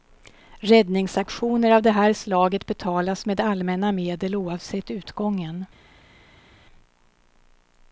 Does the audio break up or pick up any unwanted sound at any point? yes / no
no